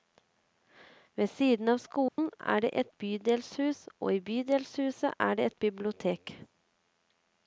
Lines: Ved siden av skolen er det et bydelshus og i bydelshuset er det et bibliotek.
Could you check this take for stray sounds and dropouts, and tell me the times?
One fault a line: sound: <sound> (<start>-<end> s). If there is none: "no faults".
sound: dropout (2.1-2.2 s)